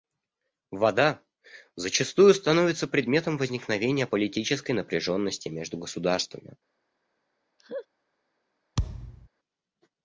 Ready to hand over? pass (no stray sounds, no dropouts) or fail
fail